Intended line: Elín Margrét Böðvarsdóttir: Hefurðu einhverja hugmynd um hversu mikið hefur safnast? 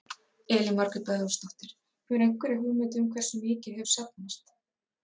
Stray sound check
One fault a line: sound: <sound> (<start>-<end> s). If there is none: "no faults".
no faults